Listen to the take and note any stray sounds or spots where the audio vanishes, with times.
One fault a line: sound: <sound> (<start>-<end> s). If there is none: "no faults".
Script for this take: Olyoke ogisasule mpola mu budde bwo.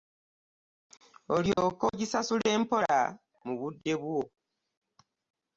sound: dropout (1.5-1.6 s)